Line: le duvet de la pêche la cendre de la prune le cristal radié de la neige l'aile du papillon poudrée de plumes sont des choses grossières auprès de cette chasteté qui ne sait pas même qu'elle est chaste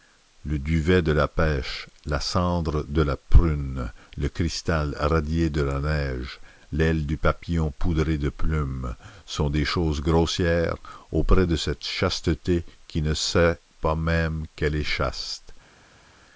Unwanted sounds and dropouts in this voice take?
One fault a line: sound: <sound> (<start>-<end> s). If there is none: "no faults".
no faults